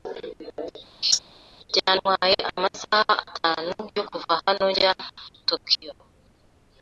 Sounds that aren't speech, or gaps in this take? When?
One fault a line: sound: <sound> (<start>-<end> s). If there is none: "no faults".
sound: laugh (1.0-1.2 s)